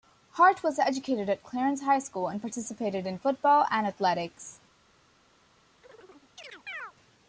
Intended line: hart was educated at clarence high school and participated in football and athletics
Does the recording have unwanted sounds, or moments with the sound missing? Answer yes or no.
yes